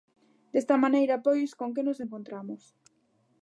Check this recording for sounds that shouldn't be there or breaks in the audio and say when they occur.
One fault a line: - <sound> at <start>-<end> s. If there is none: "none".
none